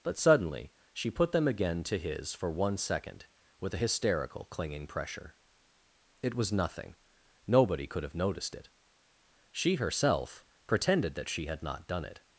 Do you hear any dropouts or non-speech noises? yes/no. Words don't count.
no